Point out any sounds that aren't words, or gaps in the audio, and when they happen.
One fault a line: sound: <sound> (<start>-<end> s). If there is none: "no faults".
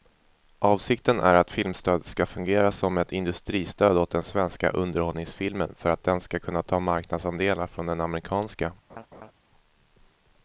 sound: laugh (8.9-9.3 s)